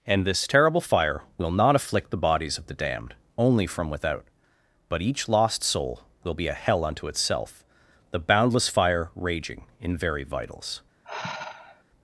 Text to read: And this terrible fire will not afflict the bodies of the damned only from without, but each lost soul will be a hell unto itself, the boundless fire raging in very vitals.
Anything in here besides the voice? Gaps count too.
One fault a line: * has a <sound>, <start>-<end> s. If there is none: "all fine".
* has a sigh, 11.0-11.8 s